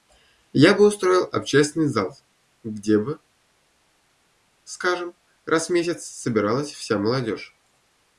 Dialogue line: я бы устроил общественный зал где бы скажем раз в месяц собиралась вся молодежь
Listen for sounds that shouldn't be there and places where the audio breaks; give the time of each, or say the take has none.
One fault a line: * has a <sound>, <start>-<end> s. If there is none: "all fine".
all fine